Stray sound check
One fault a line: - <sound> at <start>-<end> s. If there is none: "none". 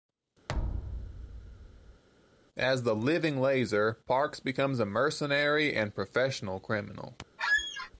- thud at 0.5-2.0 s
- squeak at 7.4-7.9 s